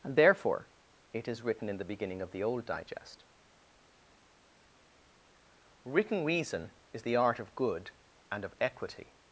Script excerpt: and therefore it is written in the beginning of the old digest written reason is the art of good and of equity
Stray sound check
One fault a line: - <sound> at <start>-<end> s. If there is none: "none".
none